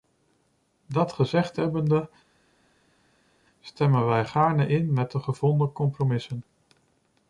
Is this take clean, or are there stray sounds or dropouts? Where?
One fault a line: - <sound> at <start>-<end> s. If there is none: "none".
none